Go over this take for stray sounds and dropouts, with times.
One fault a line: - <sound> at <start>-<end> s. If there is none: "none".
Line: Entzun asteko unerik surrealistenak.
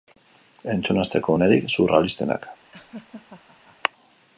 - laugh at 2.7-3.8 s